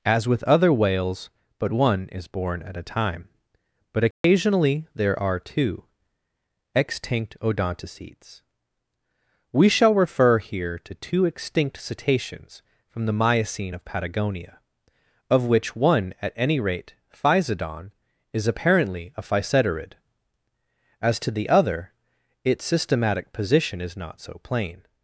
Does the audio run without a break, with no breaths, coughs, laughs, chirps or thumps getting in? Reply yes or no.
no